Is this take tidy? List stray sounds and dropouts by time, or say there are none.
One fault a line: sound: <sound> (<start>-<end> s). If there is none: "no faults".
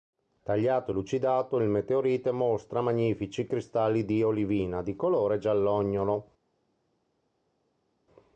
no faults